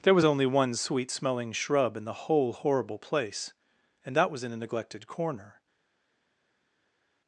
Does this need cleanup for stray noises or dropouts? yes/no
no